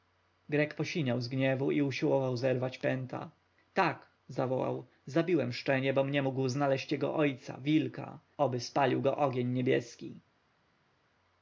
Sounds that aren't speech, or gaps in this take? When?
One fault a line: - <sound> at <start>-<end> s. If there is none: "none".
none